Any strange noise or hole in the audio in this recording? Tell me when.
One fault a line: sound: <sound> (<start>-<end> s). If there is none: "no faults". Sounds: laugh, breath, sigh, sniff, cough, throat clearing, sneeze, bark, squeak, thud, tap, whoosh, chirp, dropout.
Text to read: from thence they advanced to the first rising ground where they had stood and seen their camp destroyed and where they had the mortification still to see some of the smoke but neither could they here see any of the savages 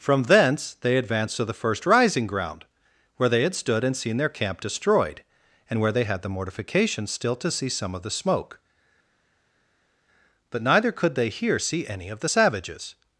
no faults